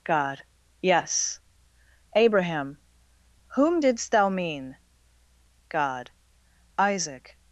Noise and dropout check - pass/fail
pass